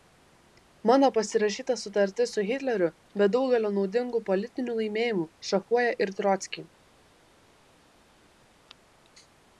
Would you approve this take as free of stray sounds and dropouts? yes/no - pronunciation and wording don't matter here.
yes